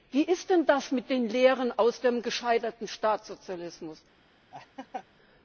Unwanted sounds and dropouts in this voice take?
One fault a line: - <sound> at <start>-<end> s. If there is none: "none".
- laugh at 4.5-5.1 s